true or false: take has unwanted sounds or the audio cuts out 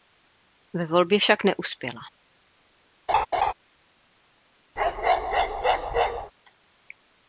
true